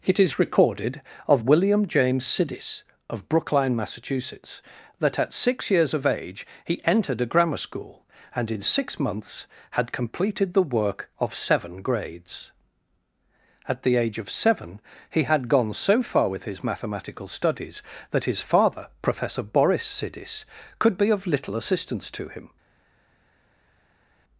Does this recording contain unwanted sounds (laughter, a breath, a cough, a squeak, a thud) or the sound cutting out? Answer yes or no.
no